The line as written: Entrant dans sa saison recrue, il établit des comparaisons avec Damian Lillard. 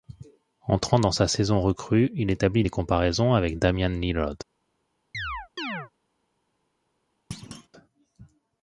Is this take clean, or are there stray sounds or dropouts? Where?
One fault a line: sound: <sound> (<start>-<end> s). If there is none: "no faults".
sound: chirp (5.1-5.9 s)
sound: thud (7.3-7.7 s)